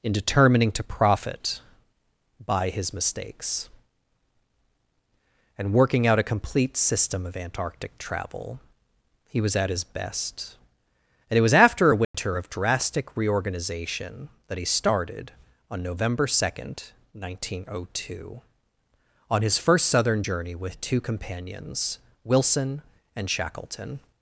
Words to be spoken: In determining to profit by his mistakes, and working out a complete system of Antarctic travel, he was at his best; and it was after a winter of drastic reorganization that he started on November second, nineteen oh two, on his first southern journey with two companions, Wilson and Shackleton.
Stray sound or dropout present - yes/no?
yes